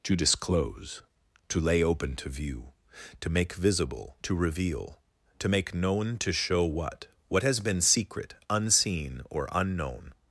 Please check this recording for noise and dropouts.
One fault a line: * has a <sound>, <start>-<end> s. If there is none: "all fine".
all fine